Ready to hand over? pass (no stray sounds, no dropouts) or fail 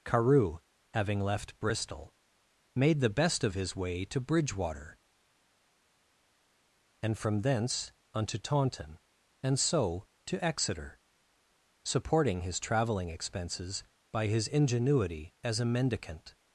pass